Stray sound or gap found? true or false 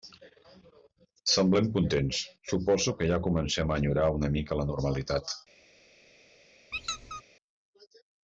true